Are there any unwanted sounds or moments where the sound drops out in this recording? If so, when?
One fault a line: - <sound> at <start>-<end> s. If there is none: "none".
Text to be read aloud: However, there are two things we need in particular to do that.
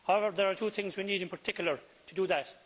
none